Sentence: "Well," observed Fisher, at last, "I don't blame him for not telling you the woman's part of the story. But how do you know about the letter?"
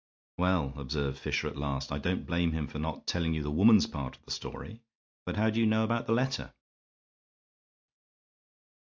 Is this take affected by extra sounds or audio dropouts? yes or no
no